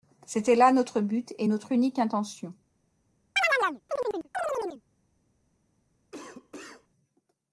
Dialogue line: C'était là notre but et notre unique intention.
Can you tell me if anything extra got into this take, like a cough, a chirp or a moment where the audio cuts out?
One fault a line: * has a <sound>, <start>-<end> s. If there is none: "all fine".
* has a chirp, 3.4-4.8 s
* has a cough, 6.1-6.9 s